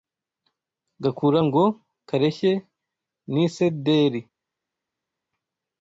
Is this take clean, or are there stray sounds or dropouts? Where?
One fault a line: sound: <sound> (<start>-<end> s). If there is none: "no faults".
no faults